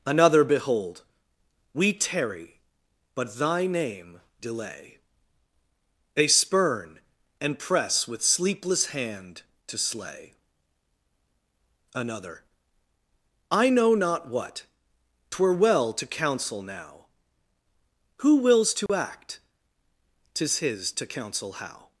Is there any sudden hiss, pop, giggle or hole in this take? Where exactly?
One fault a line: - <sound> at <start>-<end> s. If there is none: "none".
- dropout at 18.9-18.9 s